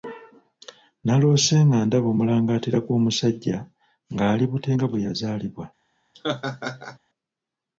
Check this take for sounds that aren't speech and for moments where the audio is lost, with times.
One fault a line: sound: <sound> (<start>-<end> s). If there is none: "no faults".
sound: laugh (6.1-7.0 s)